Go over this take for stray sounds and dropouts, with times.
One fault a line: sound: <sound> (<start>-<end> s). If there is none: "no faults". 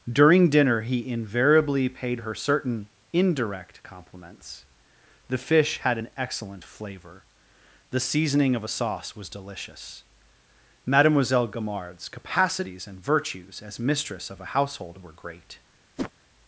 sound: whoosh (16.0-16.1 s)